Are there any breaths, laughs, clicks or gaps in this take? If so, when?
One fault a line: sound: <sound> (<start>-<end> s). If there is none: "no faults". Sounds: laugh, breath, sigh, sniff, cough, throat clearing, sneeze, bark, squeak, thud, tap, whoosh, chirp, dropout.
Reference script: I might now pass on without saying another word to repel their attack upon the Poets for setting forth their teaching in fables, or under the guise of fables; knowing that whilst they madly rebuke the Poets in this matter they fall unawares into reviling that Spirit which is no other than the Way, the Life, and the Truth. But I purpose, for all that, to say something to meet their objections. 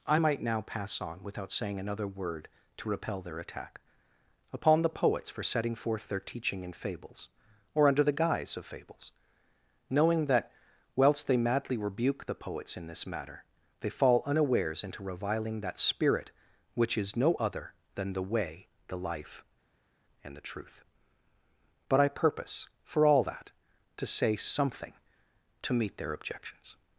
no faults